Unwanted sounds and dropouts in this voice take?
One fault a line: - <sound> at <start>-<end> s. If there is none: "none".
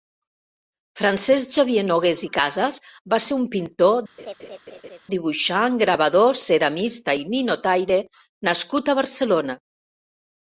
- laugh at 4.2-5.0 s